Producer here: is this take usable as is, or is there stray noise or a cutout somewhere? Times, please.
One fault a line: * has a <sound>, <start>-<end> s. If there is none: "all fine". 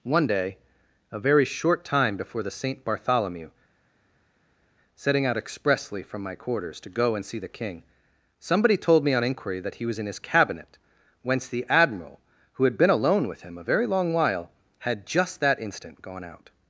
all fine